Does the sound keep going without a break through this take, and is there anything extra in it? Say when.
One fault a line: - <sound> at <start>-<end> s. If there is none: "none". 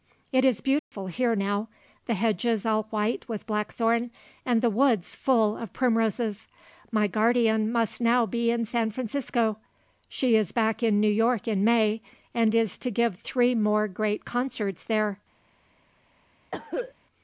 - dropout at 0.8-0.9 s
- cough at 16.5-16.9 s